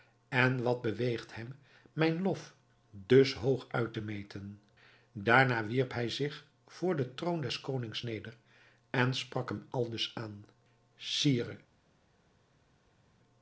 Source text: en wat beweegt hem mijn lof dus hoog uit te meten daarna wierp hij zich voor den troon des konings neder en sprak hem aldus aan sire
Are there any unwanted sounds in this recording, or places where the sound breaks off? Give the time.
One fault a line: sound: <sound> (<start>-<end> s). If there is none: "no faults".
no faults